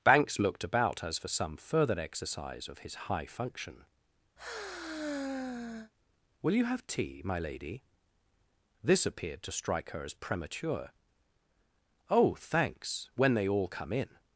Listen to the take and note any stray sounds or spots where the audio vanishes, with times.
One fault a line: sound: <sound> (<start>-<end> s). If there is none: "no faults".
sound: sigh (4.4-5.9 s)